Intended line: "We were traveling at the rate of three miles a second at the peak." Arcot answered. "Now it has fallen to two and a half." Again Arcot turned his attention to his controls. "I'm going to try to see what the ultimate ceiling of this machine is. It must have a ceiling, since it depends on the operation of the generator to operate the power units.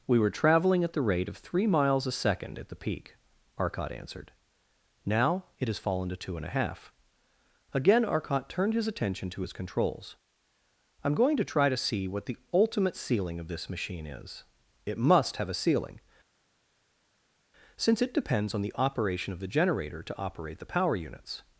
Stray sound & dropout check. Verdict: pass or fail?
pass